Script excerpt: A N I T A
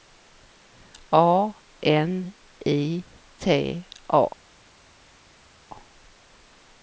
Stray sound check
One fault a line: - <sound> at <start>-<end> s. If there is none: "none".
none